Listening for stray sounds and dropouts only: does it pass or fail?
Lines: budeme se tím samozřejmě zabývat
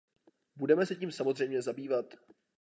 pass